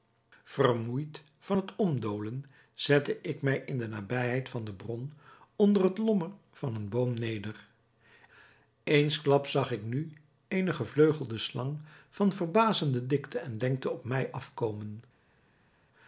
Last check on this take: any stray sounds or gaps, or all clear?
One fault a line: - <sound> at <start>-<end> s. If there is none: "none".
none